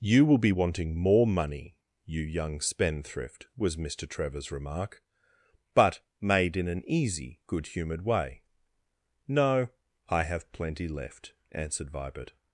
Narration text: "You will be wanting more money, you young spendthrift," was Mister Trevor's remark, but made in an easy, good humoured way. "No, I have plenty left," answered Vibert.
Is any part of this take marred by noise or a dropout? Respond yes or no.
no